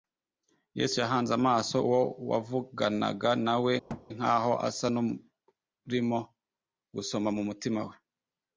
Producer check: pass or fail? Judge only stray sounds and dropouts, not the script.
fail